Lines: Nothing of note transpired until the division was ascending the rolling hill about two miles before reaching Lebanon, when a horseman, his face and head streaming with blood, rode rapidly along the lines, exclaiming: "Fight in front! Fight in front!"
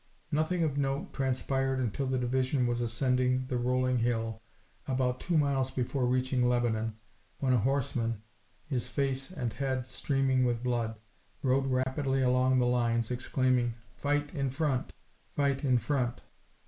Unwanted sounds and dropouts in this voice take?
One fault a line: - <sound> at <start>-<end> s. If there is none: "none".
- dropout at 11.8-11.9 s